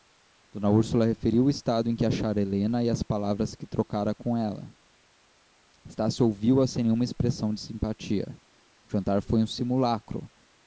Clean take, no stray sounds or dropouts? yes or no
yes